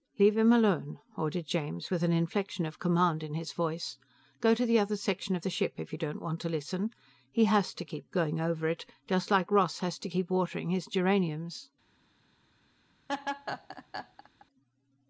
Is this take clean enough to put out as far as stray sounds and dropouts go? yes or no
no